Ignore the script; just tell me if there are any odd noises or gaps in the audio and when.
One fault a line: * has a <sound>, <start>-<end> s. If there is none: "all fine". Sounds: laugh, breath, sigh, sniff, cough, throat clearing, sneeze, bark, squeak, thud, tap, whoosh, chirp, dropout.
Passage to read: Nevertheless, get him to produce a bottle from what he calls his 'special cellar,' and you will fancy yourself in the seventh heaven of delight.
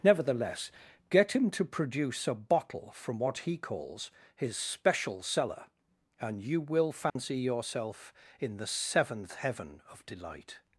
* has a dropout, 7.1-7.2 s